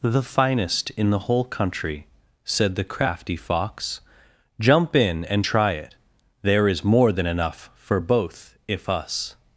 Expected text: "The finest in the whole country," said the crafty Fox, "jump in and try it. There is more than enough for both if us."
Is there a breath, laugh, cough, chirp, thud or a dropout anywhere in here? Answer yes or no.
no